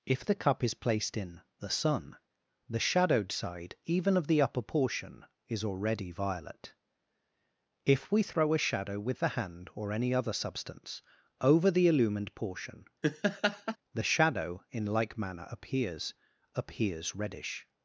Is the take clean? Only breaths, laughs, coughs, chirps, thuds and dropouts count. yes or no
no